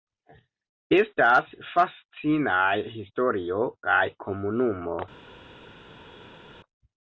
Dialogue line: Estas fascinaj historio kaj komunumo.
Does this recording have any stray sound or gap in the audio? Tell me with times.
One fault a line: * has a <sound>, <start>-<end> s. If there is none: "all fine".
all fine